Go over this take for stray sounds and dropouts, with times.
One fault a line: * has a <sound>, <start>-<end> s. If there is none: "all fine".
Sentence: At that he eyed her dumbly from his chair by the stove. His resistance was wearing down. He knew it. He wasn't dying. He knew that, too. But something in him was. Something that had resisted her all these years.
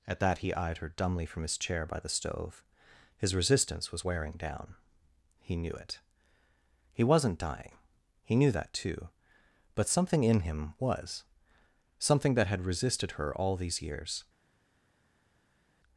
all fine